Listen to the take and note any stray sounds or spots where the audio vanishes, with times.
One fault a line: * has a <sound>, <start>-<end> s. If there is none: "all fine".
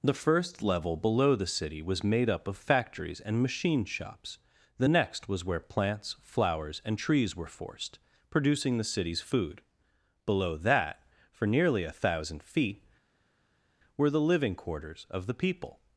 all fine